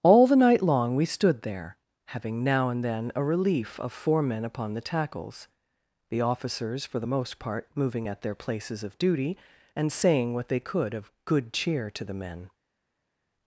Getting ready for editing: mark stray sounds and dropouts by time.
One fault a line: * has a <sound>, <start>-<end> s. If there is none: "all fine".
all fine